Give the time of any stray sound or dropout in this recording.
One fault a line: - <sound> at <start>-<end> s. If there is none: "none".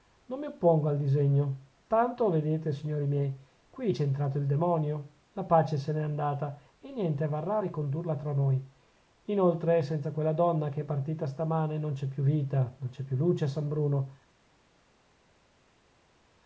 none